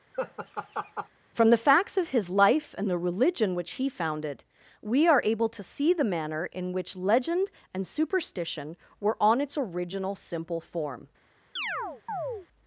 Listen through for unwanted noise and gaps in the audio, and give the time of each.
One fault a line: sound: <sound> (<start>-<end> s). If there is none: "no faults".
sound: laugh (0.1-1.1 s)
sound: chirp (11.6-12.5 s)